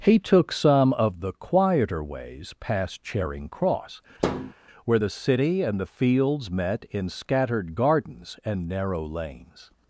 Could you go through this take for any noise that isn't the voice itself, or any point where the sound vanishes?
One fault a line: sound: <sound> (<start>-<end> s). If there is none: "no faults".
sound: thud (4.2-4.5 s)